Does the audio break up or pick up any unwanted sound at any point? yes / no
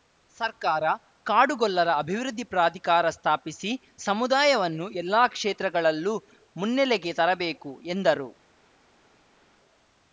no